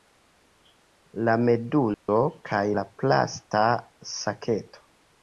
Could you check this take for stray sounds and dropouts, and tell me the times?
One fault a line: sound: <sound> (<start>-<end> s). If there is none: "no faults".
sound: dropout (1.9-2.1 s)